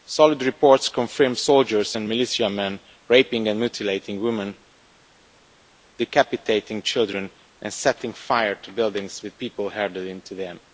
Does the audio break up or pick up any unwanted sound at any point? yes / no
no